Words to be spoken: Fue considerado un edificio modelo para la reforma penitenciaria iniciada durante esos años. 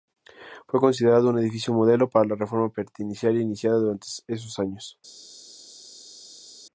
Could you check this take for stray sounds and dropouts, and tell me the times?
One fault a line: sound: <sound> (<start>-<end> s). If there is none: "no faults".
no faults